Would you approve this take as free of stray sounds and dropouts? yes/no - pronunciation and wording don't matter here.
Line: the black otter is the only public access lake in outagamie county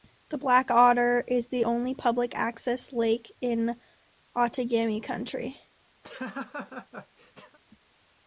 no